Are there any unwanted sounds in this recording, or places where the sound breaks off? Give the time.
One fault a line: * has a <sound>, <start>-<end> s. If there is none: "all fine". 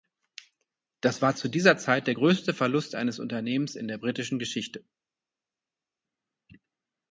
all fine